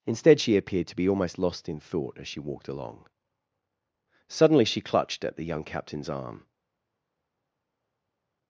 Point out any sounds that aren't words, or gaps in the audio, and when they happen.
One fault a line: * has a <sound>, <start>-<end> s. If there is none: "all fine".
all fine